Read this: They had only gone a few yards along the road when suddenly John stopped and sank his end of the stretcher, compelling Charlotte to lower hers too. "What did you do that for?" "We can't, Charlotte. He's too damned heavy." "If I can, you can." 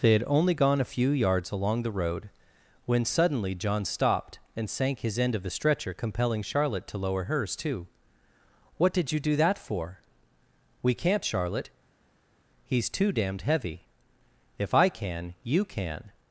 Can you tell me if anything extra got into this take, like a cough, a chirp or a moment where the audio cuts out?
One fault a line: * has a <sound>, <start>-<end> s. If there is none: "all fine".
all fine